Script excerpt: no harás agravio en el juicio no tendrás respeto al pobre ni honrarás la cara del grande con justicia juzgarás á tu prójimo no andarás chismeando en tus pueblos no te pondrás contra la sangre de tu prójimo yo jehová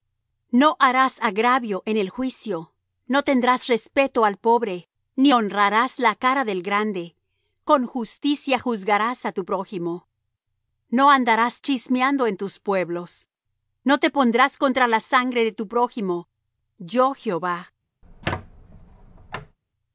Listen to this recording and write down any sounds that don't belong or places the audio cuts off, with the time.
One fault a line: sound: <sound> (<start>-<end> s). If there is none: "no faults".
sound: squeak (18.0-19.6 s)